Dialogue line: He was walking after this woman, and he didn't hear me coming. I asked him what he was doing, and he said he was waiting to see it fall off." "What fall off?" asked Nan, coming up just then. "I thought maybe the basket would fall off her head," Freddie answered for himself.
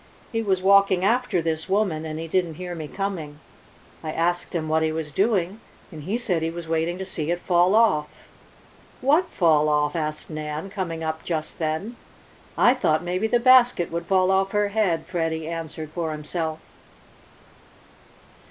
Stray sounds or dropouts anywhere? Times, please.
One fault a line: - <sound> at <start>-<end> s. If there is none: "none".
none